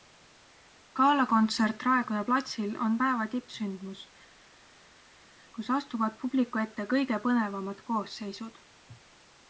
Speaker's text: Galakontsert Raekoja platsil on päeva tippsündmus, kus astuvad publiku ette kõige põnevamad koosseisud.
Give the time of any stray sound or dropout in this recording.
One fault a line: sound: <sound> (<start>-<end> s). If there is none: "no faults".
no faults